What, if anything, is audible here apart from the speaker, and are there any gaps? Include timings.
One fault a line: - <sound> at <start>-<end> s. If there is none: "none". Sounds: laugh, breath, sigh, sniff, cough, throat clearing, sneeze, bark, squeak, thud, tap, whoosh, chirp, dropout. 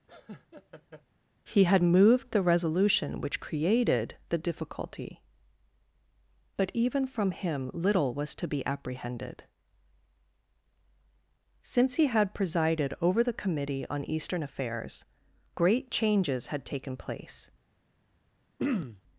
- laugh at 0.1-1.0 s
- throat clearing at 18.6-19.0 s